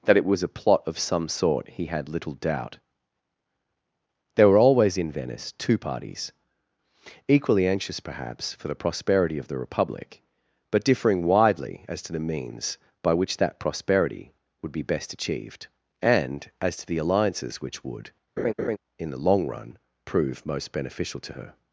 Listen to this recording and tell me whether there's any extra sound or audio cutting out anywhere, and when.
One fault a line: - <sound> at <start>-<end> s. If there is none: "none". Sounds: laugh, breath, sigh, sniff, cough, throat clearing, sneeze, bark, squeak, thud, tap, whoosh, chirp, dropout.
- laugh at 18.4-18.8 s